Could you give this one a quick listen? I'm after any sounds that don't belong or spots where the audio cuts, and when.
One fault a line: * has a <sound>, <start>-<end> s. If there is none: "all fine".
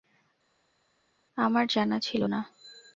all fine